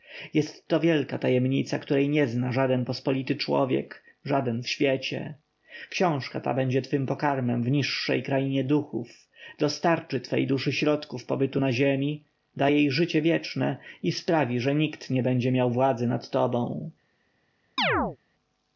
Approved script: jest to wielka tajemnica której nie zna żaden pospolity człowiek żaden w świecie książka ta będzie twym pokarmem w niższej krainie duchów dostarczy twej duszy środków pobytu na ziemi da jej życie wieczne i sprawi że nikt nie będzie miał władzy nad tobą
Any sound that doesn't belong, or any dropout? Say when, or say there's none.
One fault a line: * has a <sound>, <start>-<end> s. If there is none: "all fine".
* has a chirp, 17.8-18.2 s